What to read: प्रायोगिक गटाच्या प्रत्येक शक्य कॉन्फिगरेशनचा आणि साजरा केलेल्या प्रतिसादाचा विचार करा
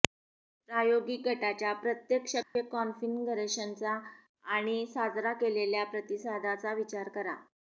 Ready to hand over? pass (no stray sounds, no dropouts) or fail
fail